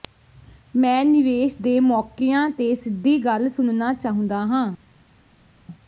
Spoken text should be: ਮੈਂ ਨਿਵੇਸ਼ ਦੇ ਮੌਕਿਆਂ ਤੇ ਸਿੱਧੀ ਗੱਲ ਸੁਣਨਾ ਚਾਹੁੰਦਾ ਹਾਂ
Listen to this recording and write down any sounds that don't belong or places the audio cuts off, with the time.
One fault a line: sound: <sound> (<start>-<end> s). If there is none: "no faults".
no faults